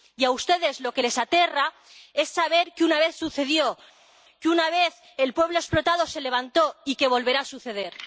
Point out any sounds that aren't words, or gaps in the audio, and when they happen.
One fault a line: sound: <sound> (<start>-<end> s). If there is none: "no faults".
no faults